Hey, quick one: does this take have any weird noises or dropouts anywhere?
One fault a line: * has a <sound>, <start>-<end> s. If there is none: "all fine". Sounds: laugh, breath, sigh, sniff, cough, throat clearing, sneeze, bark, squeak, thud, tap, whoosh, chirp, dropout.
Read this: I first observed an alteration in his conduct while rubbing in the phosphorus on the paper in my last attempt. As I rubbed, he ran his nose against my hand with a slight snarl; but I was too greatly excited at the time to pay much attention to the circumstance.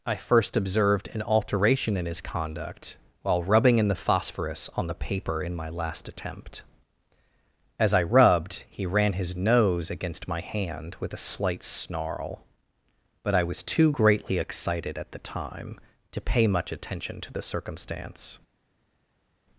all fine